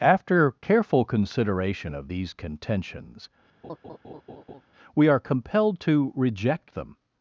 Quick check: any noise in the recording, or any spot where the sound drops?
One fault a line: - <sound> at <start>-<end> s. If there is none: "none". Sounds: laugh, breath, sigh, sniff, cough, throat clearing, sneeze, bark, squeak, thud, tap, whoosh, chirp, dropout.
- laugh at 3.6-4.6 s